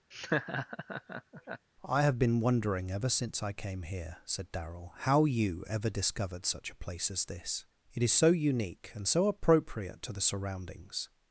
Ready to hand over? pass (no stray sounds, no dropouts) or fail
fail